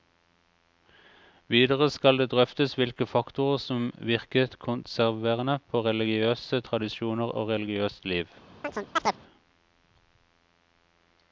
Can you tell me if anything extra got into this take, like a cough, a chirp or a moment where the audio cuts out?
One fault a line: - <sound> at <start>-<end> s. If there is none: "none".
- chirp at 8.6-9.2 s